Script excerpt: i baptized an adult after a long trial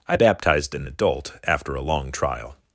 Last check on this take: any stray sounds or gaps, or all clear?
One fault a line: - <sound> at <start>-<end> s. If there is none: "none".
none